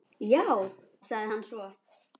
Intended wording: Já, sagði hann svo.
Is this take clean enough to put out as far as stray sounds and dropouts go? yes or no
yes